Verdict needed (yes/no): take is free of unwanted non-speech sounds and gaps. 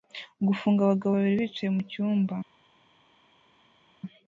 yes